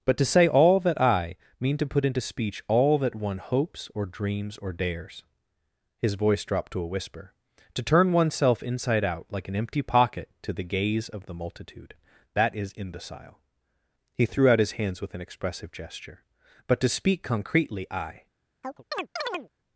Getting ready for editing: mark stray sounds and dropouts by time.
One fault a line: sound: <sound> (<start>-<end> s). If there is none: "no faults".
sound: chirp (18.6-19.5 s)